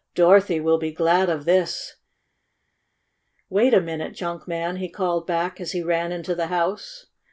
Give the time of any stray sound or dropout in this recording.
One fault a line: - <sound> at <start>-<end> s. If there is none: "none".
none